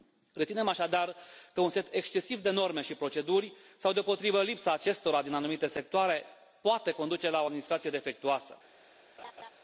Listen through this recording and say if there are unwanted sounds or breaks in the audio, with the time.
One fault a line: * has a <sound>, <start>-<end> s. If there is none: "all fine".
* has a laugh, 9.2-9.5 s